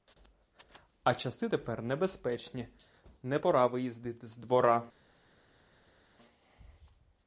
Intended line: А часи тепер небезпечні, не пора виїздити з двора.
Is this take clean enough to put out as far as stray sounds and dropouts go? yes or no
yes